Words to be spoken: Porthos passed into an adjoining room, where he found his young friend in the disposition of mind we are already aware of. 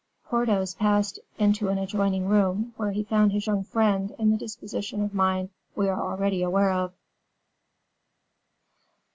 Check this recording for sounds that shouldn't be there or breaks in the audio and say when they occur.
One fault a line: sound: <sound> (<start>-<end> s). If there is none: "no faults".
no faults